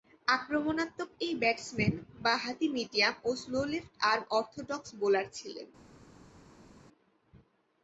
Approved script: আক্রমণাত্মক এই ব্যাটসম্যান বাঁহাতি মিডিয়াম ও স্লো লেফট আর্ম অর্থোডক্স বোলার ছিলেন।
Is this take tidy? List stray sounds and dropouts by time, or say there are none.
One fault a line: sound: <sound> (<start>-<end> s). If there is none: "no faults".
no faults